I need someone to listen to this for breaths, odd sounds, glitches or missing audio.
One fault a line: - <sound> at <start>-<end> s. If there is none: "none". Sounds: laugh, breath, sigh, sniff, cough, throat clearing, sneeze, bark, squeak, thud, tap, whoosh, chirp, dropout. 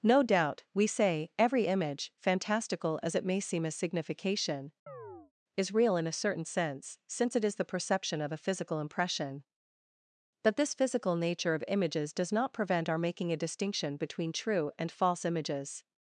- chirp at 4.9-5.3 s